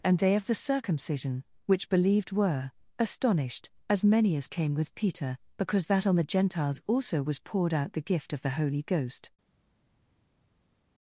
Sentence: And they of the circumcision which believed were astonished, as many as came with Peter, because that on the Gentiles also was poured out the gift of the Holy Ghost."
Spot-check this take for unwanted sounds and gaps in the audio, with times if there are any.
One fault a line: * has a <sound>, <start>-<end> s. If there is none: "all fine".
all fine